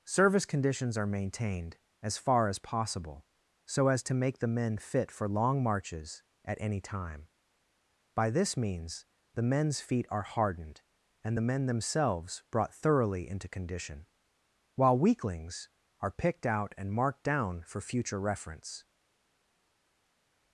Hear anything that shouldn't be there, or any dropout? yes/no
no